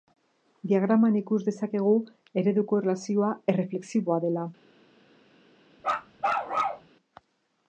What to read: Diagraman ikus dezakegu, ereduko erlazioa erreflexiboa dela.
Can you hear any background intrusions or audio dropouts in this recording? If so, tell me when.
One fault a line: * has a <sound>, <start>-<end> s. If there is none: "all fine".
* has a bark, 5.8-6.9 s